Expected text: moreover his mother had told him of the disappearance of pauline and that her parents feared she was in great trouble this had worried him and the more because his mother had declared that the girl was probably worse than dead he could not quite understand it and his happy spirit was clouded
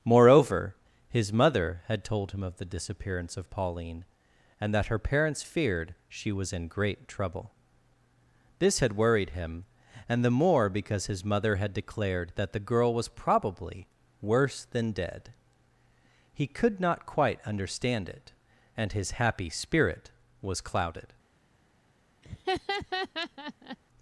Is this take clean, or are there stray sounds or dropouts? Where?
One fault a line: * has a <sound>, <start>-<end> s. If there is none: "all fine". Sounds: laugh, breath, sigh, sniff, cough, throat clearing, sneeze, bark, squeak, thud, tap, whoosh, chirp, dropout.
* has a laugh, 22.2-23.8 s